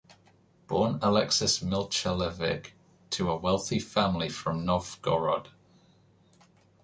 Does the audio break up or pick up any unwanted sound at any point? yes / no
no